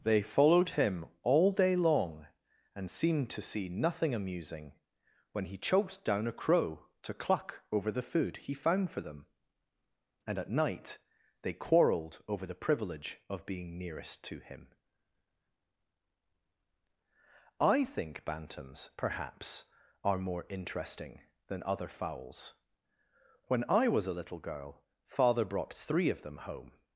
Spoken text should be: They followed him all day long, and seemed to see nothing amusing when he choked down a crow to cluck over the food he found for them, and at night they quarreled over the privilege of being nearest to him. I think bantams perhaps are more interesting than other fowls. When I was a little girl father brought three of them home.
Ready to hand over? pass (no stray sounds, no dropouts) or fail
pass